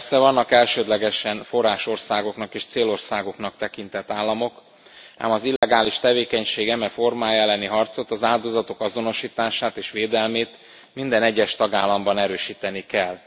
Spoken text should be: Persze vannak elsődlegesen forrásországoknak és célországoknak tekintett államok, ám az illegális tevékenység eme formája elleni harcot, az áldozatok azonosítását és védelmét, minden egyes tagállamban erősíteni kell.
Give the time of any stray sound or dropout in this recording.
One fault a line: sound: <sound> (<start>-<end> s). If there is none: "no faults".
sound: dropout (5.6-5.6 s)